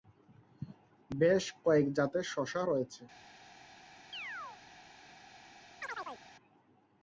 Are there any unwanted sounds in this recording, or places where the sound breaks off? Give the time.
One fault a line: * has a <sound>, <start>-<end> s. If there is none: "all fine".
* has a chirp, 4.1-4.6 s
* has a chirp, 5.8-6.2 s